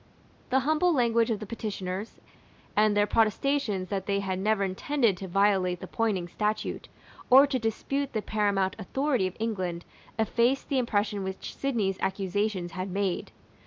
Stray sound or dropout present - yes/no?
no